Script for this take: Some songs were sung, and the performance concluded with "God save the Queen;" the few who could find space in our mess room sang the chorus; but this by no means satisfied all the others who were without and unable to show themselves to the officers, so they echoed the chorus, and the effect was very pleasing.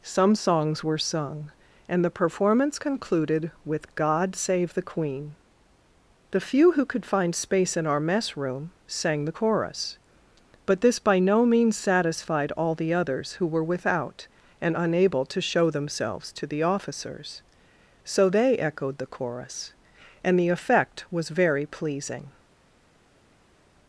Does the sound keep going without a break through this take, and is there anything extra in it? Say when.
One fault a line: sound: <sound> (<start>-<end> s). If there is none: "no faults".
no faults